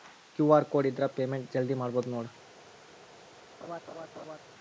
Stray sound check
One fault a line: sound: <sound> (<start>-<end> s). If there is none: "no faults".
sound: laugh (3.6-4.4 s)